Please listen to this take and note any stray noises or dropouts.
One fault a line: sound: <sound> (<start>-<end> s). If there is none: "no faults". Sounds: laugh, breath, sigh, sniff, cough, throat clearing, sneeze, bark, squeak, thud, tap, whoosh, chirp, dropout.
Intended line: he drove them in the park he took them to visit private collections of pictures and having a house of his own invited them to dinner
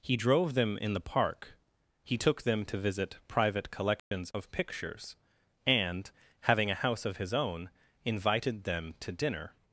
sound: dropout (4.0-4.1 s)